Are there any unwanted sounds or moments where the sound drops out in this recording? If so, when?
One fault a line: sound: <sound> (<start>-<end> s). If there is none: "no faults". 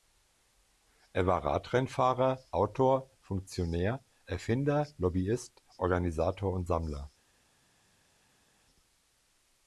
no faults